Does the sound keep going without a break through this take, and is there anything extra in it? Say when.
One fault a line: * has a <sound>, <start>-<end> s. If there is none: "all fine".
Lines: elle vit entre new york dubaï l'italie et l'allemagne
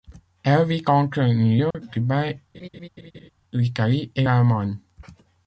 * has a dropout, 1.7-1.7 s
* has a laugh, 2.5-3.3 s